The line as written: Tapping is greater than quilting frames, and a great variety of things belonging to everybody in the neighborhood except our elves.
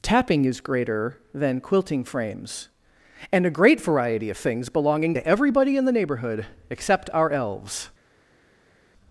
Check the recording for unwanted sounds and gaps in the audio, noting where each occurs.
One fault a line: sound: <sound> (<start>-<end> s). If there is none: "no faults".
no faults